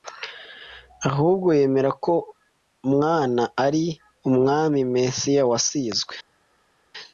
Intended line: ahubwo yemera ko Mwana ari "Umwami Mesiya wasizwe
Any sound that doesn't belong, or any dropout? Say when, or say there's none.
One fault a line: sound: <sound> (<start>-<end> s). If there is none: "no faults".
no faults